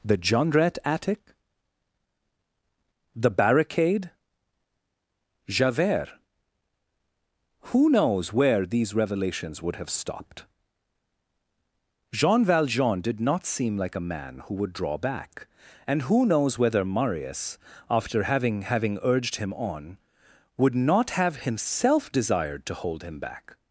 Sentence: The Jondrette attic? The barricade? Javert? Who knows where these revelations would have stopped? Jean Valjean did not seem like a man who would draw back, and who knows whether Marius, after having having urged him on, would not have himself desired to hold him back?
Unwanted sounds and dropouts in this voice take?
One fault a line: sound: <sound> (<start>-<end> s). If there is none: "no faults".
no faults